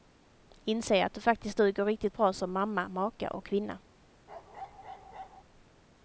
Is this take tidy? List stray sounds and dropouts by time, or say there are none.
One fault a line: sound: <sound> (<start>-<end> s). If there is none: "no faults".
sound: bark (4.3-5.4 s)